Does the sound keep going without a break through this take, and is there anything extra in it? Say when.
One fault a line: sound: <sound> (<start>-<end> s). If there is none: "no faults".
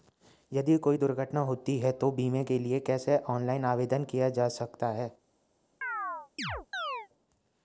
sound: chirp (5.8-7.1 s)